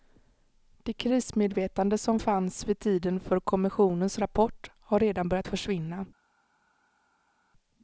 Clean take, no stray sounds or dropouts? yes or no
yes